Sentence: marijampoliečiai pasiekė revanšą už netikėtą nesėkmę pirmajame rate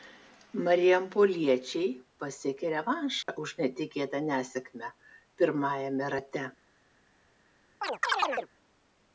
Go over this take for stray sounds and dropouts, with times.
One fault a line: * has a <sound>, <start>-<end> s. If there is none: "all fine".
* has a dropout, 3.2-3.3 s
* has a chirp, 7.8-8.5 s